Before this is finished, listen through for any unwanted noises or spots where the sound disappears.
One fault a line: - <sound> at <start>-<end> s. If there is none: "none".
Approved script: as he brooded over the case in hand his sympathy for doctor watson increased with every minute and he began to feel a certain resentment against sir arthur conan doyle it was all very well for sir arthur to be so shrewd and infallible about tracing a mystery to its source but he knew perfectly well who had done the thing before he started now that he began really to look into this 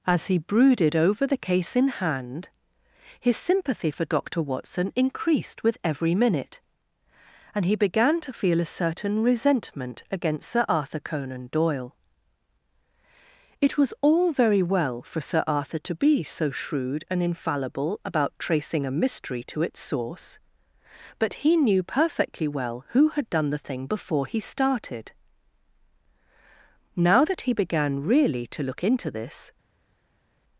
none